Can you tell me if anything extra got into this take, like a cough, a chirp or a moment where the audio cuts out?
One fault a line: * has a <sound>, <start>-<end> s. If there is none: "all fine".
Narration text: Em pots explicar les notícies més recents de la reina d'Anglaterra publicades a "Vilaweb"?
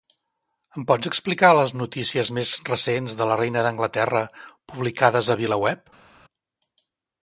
all fine